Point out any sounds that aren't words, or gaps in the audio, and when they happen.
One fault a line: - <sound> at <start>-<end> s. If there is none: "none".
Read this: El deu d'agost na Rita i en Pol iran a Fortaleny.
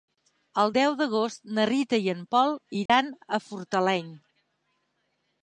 - dropout at 2.9-2.9 s